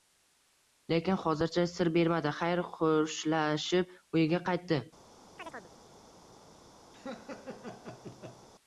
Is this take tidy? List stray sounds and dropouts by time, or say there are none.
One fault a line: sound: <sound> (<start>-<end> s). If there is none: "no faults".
sound: chirp (5.4-5.7 s)
sound: laugh (6.9-8.5 s)